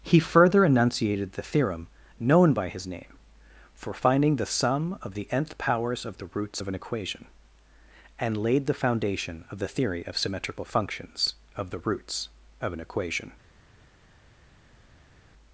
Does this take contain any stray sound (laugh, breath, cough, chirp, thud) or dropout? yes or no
no